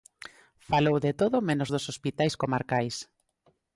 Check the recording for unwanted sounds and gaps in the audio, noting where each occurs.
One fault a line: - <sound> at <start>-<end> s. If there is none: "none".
none